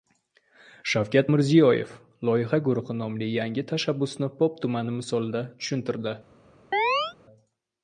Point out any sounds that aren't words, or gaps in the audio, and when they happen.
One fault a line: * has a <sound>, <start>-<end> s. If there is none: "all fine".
* has a chirp, 6.7-7.1 s